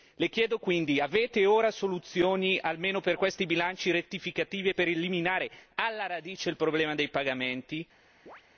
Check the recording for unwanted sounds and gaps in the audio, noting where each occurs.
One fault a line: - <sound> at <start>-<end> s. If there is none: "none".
- chirp at 8.3-8.4 s